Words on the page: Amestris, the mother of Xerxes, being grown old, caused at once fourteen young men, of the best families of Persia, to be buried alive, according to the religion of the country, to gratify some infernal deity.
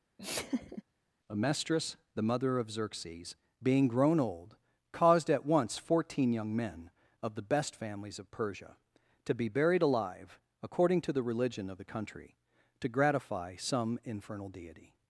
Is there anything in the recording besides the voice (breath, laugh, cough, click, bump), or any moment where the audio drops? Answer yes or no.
yes